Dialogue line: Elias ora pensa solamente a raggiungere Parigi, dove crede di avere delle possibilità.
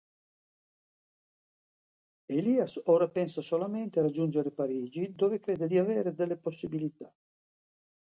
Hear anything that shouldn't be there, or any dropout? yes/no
no